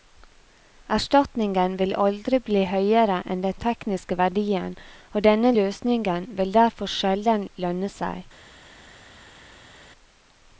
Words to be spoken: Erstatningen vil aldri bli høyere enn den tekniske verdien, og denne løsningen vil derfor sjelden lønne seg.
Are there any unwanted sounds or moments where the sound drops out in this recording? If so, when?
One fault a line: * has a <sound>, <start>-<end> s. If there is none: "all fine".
all fine